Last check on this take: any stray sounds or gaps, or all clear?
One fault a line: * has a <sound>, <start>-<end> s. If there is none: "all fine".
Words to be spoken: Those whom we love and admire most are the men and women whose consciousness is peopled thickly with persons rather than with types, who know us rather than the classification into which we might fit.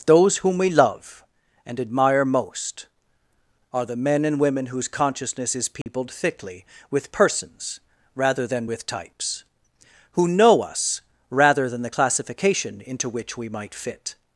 * has a dropout, 5.8-5.9 s